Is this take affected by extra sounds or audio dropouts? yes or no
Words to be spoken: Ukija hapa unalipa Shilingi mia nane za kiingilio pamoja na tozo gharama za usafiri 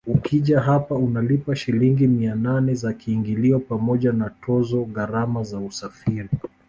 no